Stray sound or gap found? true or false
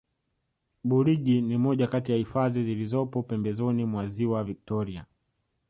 false